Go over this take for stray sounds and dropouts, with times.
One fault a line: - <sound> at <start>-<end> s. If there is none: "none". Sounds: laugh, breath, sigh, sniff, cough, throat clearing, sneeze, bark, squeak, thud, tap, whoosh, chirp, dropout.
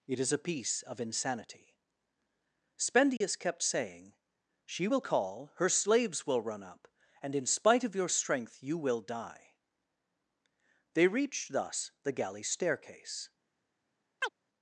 - dropout at 3.2-3.2 s
- chirp at 14.2-14.3 s